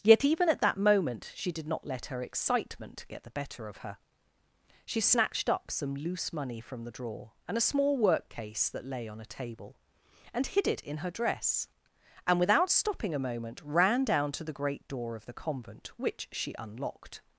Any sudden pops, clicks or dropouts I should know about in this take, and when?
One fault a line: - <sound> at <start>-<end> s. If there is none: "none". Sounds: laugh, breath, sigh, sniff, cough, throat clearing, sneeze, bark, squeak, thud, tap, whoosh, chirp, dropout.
none